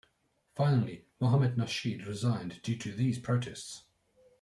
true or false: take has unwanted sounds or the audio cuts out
false